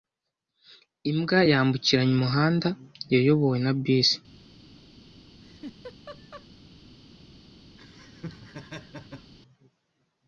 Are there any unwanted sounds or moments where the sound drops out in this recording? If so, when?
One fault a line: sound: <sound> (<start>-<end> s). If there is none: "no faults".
sound: laugh (5.4-6.5 s)
sound: laugh (7.8-9.3 s)